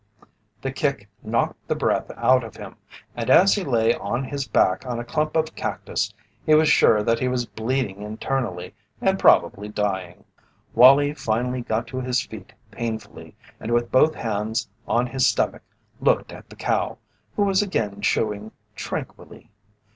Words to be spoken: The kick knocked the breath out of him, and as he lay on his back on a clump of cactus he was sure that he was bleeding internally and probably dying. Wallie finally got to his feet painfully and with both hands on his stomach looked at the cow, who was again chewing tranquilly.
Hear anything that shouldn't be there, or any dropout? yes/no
no